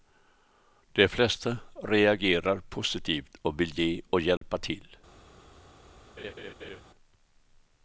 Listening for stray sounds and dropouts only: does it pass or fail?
fail